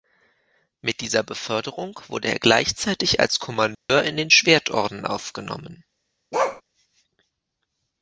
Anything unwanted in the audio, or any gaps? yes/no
yes